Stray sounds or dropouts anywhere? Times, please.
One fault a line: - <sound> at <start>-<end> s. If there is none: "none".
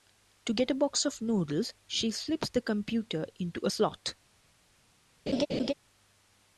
- laugh at 5.3-5.7 s